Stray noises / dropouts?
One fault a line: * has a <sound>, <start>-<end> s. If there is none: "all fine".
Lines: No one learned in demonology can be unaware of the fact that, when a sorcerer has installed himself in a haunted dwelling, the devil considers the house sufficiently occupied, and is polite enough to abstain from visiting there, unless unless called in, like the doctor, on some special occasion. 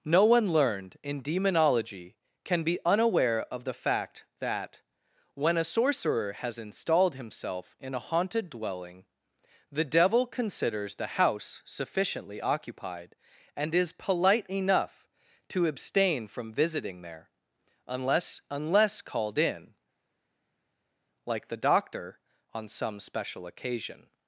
all fine